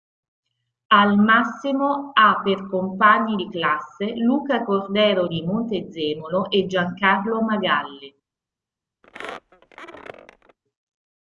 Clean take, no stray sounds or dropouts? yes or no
no